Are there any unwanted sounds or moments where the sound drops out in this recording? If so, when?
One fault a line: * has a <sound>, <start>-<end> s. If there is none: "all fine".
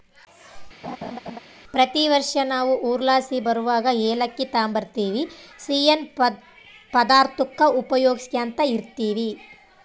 * has a laugh, 0.8-1.4 s